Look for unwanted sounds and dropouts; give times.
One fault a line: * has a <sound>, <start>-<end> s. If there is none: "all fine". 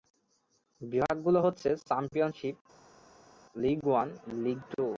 all fine